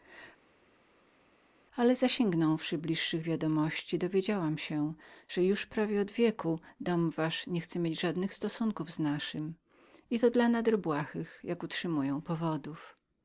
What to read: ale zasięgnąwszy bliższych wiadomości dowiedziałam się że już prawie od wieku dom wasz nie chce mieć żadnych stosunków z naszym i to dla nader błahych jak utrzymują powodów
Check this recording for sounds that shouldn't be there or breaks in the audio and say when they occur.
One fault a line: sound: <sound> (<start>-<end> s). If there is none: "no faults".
no faults